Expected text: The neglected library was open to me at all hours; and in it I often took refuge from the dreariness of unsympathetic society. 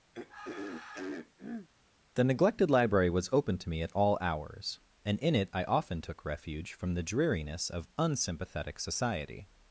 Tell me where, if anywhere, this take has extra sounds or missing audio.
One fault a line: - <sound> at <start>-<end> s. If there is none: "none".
- throat clearing at 0.1-1.7 s